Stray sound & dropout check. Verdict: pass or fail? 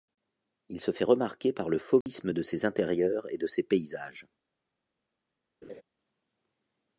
fail